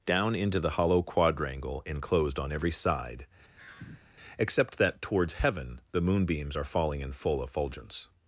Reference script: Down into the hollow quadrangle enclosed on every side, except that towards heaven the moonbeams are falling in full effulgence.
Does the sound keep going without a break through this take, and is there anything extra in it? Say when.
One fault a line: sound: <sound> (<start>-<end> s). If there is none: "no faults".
sound: sigh (3.6-4.1 s)